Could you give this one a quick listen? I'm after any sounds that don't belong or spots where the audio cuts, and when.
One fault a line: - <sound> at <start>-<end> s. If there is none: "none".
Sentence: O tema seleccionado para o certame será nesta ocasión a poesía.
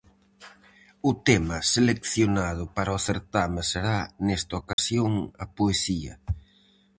- dropout at 4.7-4.8 s